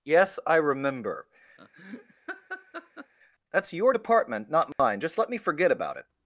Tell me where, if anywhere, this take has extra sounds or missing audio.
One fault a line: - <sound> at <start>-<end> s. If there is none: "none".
- laugh at 1.6-3.1 s
- dropout at 4.7-4.8 s